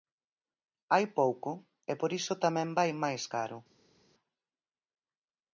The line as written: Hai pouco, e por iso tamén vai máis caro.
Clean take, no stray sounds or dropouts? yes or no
yes